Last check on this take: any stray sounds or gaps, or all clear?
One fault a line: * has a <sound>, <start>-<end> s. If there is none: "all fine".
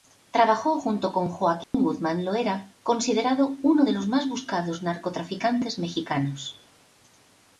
* has a dropout, 1.6-1.7 s